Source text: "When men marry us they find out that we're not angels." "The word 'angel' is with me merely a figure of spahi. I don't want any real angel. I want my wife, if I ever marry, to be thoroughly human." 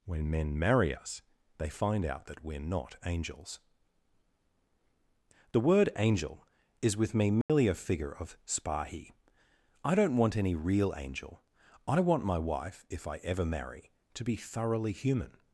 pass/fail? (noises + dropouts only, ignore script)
fail